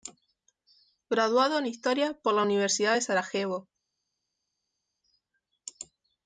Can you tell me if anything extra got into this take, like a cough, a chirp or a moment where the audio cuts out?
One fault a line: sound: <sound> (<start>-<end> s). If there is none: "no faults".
no faults